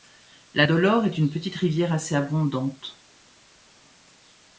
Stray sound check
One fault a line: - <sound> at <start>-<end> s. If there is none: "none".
none